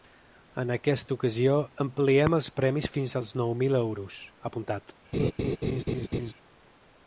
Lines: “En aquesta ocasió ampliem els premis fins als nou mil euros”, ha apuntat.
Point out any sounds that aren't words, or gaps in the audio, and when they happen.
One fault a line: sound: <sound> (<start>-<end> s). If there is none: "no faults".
sound: laugh (5.1-6.3 s)